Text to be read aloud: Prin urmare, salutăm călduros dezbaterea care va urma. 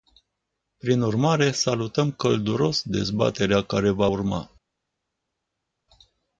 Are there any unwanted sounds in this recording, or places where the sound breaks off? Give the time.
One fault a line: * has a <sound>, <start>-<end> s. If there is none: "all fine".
all fine